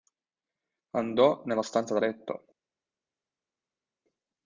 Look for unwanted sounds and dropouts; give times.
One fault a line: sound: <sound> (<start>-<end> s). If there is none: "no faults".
no faults